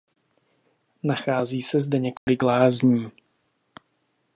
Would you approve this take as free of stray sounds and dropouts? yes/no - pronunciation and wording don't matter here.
no